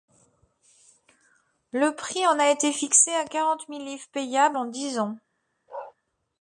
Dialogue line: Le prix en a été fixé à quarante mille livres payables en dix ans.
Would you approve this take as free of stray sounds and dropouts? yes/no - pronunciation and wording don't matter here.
no